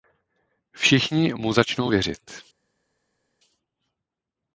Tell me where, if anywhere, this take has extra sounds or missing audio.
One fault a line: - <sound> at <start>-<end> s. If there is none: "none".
none